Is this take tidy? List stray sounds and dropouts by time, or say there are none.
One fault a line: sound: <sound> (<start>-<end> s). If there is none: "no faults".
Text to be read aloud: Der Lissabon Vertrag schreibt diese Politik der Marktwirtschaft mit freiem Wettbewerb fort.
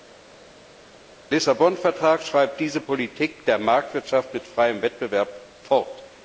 no faults